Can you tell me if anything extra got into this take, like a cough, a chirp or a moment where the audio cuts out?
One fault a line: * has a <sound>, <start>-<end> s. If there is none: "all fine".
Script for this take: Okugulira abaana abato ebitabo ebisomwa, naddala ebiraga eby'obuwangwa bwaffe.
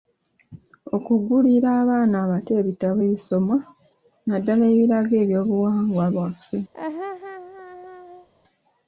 * has a laugh, 6.7-8.3 s